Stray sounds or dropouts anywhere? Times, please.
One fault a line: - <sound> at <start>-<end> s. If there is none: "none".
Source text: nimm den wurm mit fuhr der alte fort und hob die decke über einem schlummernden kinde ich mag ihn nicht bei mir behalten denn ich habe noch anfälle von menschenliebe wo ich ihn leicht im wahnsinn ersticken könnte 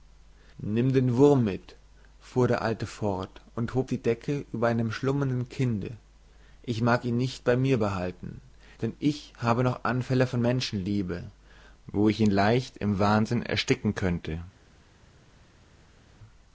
none